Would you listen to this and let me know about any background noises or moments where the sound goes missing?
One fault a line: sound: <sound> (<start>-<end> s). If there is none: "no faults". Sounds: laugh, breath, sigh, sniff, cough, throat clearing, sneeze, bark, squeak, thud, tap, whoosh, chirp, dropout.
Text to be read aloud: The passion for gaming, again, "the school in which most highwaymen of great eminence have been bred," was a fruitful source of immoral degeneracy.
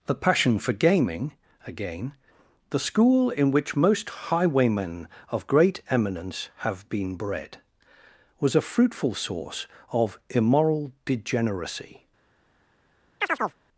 sound: chirp (13.2-13.6 s)